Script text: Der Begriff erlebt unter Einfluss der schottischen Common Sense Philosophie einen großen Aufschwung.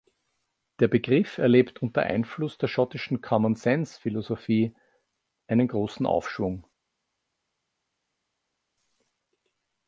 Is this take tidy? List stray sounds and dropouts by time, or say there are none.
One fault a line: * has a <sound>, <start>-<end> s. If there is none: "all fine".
all fine